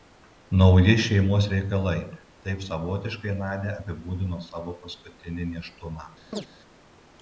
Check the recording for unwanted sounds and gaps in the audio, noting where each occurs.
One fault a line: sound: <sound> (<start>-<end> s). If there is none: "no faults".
sound: chirp (6.3-6.5 s)